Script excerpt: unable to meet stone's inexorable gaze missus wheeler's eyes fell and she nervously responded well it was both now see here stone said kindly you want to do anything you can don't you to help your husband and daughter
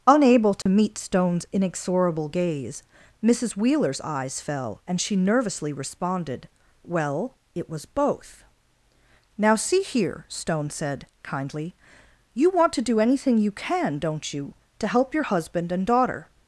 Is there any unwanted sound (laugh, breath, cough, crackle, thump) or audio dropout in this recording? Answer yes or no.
yes